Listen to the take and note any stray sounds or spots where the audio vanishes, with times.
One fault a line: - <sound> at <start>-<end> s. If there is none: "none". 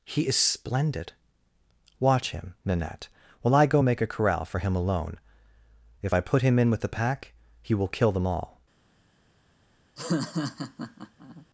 - laugh at 10.0-11.5 s